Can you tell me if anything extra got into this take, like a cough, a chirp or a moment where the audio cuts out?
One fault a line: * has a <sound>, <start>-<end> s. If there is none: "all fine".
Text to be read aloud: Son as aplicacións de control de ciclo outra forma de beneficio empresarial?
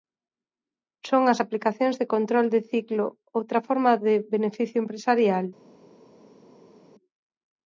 all fine